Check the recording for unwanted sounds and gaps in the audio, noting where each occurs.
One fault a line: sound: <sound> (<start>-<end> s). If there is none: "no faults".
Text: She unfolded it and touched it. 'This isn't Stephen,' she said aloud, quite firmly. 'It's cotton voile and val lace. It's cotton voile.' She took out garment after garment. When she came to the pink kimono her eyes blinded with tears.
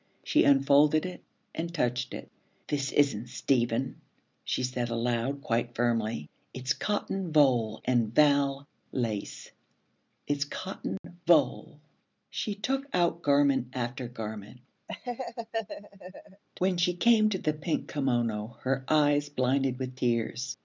sound: dropout (11.0-11.0 s)
sound: laugh (14.9-16.4 s)